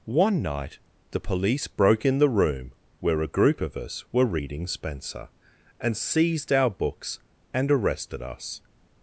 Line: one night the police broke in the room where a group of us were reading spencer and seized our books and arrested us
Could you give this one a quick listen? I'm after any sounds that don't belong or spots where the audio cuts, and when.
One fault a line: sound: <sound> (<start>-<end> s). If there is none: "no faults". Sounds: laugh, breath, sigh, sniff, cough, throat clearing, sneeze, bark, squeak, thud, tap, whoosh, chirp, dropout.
no faults